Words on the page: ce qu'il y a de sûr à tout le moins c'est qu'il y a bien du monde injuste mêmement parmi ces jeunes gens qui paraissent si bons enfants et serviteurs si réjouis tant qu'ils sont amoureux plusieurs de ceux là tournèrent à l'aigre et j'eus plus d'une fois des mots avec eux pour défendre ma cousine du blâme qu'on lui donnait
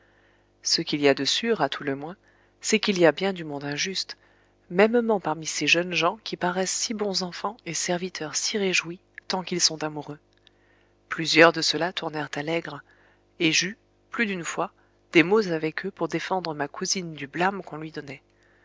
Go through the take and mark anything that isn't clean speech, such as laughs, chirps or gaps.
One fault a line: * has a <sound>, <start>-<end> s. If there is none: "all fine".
all fine